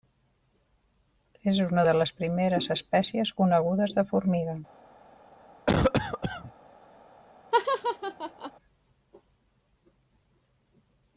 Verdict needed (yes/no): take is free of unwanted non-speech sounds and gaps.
no